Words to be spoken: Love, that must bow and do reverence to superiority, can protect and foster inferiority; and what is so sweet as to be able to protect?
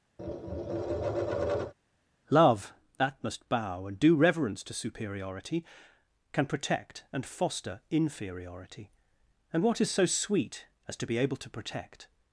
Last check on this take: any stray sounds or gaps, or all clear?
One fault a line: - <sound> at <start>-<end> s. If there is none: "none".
- tap at 0.2-1.7 s